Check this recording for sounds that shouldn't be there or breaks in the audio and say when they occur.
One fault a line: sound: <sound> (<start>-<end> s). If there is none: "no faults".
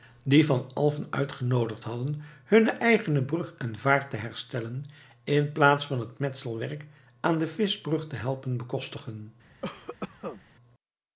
sound: cough (9.6-10.4 s)